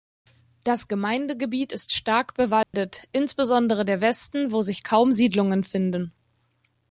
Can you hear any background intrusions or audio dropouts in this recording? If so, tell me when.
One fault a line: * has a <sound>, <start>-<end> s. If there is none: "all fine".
* has a dropout, 2.6-2.7 s